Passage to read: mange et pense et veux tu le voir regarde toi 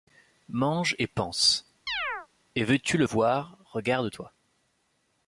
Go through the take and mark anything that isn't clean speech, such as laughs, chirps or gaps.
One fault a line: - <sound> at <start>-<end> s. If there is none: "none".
- chirp at 1.9-2.3 s